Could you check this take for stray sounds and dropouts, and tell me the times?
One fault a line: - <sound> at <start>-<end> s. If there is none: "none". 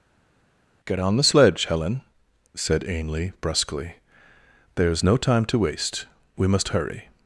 none